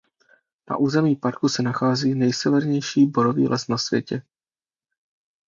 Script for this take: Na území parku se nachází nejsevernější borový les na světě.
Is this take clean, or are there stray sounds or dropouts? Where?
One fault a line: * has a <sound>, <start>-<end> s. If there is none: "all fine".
all fine